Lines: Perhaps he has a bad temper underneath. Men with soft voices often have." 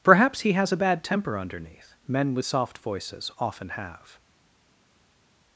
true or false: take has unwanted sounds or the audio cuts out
false